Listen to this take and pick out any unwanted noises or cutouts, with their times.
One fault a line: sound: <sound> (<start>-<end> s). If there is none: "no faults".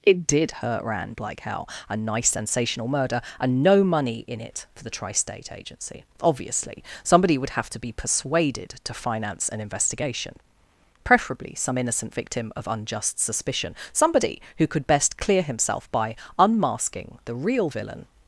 no faults